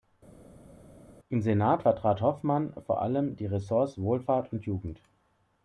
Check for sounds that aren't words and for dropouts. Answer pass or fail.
pass